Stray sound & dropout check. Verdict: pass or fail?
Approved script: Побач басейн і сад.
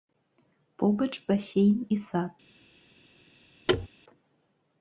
fail